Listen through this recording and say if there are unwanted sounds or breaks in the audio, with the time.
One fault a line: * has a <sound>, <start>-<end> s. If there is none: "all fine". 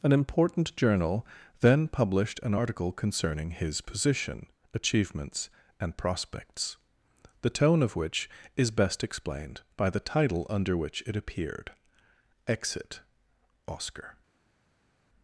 all fine